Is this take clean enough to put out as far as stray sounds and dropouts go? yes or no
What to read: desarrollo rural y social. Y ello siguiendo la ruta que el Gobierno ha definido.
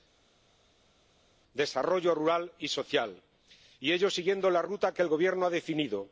yes